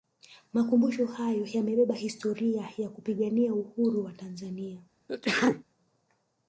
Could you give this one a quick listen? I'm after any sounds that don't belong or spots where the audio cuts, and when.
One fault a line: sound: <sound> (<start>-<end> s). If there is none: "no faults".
sound: sneeze (5.1-5.6 s)